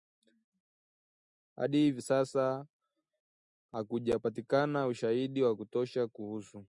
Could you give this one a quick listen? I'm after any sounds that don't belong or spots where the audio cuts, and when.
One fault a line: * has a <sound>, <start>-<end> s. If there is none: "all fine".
all fine